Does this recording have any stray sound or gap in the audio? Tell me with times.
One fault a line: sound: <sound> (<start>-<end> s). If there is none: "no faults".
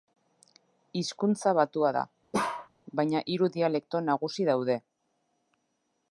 sound: bark (2.3-2.7 s)